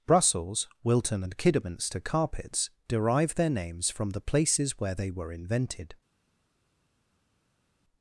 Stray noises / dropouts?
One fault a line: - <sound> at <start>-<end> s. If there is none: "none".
none